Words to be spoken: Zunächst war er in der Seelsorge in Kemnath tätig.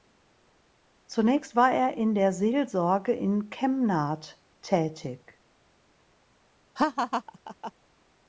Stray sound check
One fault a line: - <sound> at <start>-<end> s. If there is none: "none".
- laugh at 6.8-7.7 s